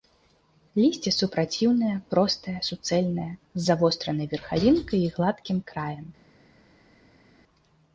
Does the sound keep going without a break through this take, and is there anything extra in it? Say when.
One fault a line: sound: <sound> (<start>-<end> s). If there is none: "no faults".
no faults